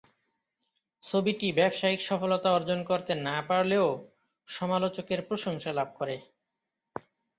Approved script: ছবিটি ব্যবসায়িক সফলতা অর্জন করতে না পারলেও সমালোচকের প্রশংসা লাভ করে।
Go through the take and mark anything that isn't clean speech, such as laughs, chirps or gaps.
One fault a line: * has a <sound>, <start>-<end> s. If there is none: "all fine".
all fine